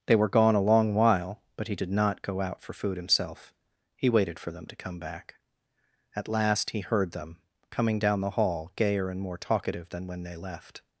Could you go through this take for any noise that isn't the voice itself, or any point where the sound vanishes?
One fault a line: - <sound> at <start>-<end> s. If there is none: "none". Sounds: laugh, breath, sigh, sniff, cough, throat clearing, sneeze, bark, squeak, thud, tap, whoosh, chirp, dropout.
none